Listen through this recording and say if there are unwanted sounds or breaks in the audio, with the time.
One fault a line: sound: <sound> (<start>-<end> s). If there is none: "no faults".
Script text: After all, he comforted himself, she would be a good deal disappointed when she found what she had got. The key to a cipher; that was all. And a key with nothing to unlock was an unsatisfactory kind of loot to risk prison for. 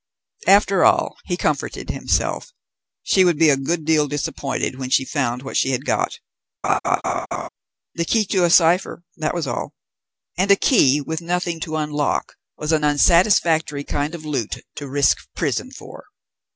sound: laugh (6.6-7.5 s)